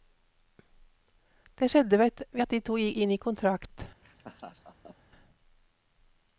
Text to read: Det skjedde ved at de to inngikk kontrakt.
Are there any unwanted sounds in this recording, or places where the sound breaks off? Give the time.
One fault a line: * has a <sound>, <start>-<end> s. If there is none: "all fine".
* has a laugh, 4.0-5.0 s